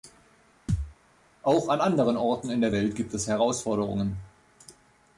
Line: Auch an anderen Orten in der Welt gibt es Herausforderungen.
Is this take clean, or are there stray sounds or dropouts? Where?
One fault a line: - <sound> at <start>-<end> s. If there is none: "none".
- thud at 0.7-0.9 s